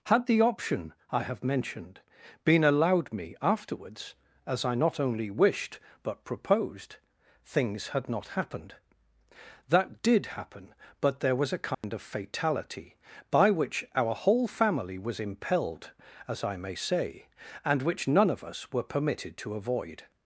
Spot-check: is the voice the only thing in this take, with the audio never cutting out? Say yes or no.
no